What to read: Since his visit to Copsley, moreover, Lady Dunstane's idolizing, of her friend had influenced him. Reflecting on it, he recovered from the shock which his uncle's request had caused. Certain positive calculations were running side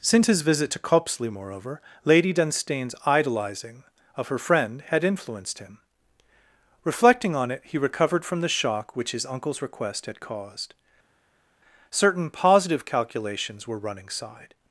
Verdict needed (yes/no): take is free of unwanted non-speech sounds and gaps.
yes